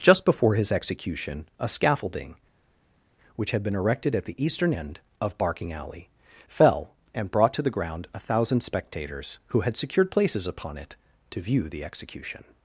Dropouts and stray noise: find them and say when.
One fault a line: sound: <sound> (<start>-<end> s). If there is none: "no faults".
no faults